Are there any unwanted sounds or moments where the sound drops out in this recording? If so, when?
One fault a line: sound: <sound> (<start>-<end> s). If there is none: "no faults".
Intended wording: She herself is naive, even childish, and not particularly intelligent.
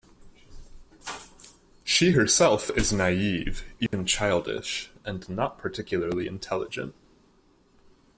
sound: dropout (3.9-3.9 s)